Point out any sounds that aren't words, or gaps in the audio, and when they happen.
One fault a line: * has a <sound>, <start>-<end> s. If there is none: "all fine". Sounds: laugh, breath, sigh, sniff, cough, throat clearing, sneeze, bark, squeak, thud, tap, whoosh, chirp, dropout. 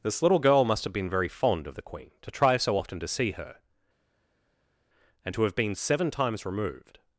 all fine